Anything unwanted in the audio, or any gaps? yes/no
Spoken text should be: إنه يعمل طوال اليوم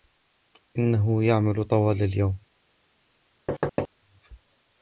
yes